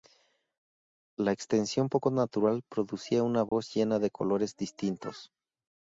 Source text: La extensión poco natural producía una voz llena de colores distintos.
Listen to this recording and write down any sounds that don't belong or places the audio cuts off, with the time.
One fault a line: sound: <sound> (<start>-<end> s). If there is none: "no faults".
sound: dropout (3.5-3.5 s)